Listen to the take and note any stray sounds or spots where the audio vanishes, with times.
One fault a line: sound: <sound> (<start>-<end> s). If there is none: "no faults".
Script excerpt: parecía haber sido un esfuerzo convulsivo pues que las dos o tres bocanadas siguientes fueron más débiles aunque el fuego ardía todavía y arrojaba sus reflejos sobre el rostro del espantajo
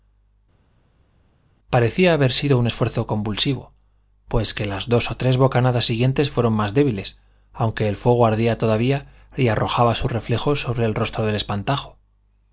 no faults